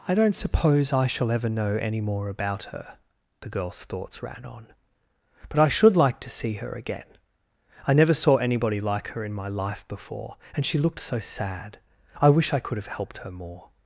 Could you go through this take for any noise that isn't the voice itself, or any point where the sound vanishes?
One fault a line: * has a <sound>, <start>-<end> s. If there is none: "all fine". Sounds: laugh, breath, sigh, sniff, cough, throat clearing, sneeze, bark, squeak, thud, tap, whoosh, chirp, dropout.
all fine